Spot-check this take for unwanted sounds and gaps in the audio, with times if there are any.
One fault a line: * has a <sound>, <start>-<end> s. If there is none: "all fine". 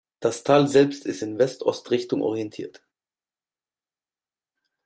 all fine